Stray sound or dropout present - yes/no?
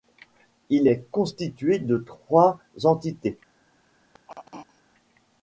yes